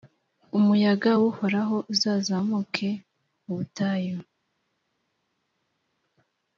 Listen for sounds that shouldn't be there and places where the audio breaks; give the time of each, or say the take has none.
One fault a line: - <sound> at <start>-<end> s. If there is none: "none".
none